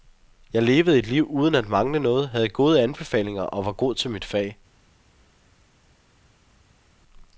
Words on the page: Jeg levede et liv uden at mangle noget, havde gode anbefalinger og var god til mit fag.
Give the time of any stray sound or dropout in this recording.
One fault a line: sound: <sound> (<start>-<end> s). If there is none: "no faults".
no faults